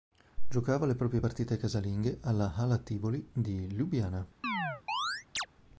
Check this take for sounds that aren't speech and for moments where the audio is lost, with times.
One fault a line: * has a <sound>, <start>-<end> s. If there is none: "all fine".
* has a chirp, 4.4-5.5 s